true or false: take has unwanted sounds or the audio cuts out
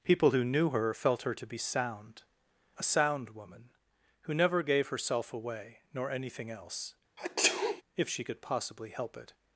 true